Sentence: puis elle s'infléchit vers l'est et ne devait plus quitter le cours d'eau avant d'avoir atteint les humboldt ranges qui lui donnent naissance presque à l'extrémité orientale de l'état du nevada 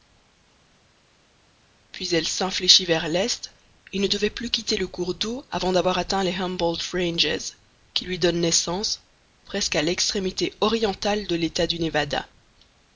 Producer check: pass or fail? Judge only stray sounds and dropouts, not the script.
pass